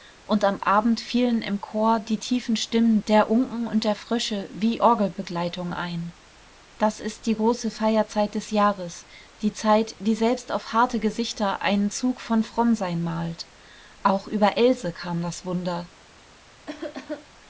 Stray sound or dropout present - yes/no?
yes